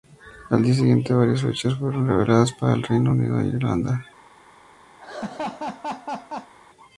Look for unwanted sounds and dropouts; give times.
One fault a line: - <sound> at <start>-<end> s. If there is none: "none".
- laugh at 5.0-6.5 s